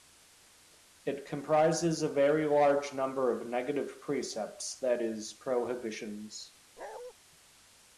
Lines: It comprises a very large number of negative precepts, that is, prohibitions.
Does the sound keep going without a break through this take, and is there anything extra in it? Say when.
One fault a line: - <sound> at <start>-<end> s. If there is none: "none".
- bark at 6.8-7.1 s